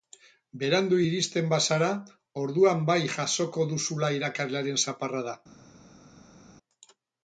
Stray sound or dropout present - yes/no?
no